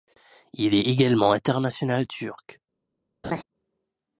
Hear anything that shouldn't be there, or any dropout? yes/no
yes